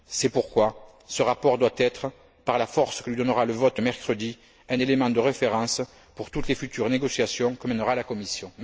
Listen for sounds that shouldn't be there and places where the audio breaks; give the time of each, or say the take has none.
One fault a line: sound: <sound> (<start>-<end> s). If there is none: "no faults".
no faults